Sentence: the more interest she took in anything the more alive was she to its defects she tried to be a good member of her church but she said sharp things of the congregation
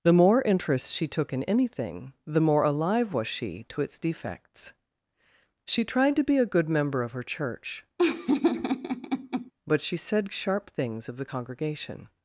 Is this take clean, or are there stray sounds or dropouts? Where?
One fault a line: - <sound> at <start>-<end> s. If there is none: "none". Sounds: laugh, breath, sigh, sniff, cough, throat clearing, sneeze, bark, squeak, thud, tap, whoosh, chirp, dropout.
- laugh at 8.0-9.5 s